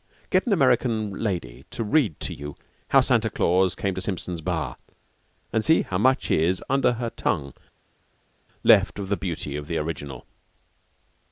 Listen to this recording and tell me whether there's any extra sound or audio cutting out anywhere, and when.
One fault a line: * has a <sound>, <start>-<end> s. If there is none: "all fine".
all fine